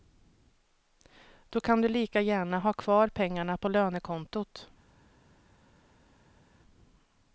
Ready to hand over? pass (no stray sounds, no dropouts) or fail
pass